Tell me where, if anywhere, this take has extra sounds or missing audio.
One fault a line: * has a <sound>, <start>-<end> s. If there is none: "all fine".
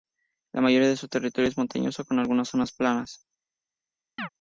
* has a chirp, 4.2-4.3 s